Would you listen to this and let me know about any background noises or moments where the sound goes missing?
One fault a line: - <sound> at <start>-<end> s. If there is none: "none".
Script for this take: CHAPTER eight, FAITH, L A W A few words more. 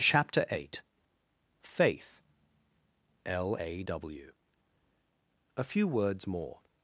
none